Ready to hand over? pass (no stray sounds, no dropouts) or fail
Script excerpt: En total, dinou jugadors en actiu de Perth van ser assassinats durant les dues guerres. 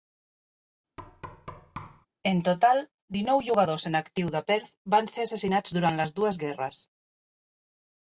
fail